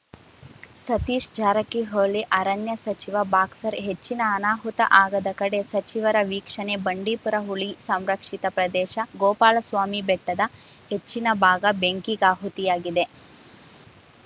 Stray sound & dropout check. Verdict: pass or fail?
pass